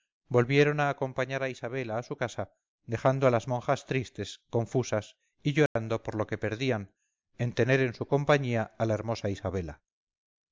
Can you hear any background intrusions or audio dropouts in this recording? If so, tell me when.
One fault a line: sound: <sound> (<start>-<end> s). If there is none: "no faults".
sound: dropout (5.7-5.8 s)